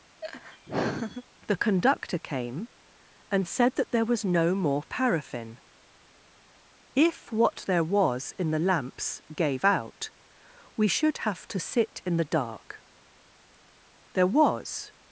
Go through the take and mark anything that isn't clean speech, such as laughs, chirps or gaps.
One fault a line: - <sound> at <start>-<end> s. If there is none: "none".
- laugh at 0.2-1.2 s